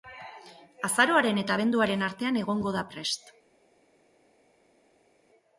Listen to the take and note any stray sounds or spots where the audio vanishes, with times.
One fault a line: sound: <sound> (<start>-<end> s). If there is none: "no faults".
no faults